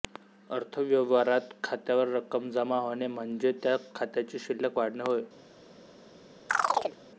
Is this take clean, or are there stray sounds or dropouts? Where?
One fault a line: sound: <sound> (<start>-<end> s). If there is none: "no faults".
sound: chirp (6.5-7.0 s)